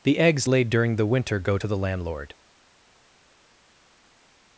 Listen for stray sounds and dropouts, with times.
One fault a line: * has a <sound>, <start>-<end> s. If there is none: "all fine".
all fine